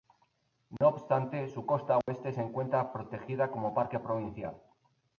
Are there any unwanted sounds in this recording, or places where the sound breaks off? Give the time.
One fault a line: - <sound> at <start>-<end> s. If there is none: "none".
- dropout at 0.8-0.8 s
- dropout at 2.0-2.1 s